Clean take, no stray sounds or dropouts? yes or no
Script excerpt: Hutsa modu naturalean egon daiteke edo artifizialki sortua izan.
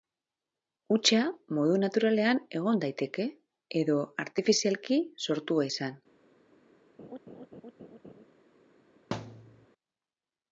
no